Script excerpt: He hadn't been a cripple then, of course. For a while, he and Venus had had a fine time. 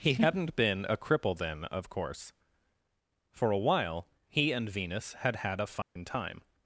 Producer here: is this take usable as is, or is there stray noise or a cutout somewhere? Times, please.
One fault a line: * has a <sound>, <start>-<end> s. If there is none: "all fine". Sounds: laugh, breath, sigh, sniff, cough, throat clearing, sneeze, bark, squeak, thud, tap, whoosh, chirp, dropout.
* has a dropout, 5.8-6.0 s